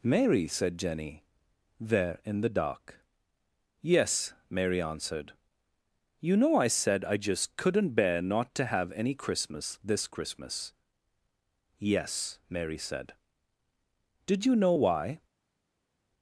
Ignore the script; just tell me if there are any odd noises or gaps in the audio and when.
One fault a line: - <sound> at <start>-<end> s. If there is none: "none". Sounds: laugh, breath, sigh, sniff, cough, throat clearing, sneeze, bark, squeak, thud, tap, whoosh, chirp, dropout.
none